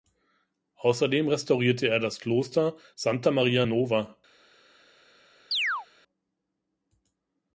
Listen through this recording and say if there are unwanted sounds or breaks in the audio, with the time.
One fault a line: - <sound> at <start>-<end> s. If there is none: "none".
- chirp at 5.5-5.9 s